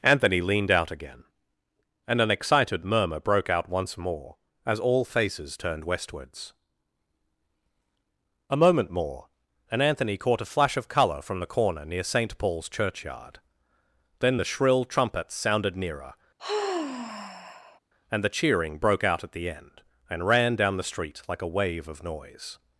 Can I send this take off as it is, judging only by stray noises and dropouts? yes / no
no